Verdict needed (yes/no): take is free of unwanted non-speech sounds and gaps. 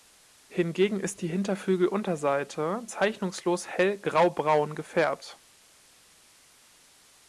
yes